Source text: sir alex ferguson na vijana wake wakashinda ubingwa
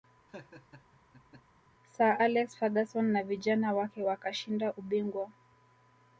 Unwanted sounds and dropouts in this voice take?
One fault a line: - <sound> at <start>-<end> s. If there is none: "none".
- laugh at 0.3-1.6 s